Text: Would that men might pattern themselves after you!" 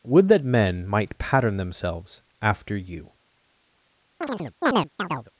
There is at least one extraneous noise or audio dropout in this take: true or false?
true